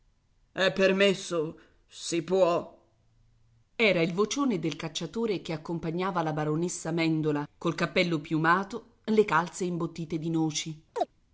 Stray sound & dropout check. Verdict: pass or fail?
fail